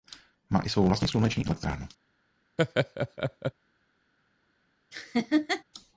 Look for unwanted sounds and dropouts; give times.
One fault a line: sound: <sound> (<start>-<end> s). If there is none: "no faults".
sound: laugh (2.6-3.5 s)
sound: laugh (4.9-5.6 s)